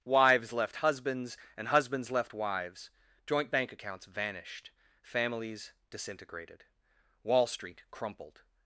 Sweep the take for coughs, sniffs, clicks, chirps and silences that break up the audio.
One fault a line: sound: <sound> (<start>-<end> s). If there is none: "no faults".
no faults